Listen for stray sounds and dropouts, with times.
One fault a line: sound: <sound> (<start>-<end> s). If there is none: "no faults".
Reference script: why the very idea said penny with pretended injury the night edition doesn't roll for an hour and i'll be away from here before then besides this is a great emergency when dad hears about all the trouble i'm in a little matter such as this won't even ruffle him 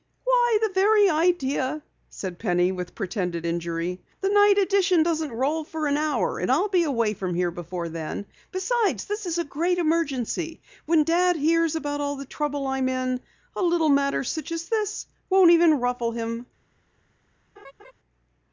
sound: laugh (17.6-17.9 s)